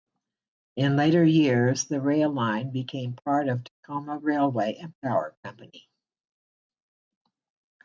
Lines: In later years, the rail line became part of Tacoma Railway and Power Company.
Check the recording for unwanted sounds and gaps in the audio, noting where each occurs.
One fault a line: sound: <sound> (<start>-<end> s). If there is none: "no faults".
no faults